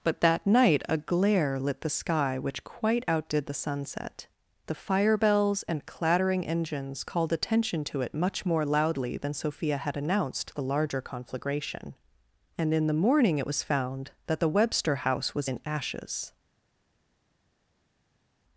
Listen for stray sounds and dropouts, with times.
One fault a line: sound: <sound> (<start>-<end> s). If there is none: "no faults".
no faults